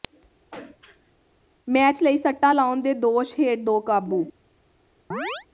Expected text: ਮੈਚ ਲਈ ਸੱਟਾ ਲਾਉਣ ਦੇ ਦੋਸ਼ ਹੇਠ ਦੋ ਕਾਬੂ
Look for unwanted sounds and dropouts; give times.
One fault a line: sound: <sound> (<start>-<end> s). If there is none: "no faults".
sound: throat clearing (0.5-1.1 s)
sound: chirp (5.1-5.5 s)